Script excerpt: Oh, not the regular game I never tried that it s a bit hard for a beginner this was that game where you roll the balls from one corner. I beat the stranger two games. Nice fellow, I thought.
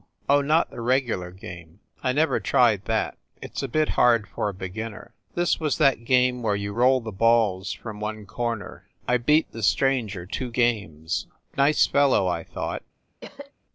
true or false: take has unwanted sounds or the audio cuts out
true